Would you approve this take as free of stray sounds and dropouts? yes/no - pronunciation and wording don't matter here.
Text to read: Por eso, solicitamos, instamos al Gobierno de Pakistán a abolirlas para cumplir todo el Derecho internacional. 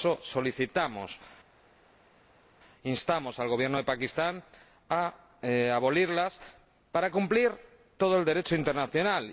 yes